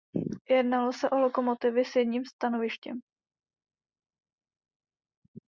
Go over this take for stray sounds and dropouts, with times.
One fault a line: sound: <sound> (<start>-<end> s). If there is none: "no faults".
no faults